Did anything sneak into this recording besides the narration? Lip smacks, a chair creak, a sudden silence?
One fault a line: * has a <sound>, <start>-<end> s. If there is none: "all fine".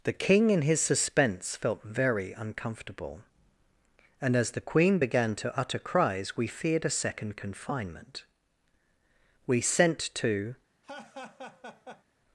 * has a laugh, 10.8-12.0 s